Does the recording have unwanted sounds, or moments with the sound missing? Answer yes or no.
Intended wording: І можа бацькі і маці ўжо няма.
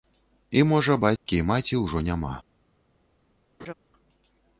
yes